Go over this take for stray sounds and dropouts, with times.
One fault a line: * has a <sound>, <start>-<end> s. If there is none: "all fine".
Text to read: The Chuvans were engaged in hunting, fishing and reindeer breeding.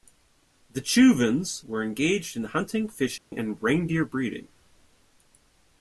* has a dropout, 3.2-3.3 s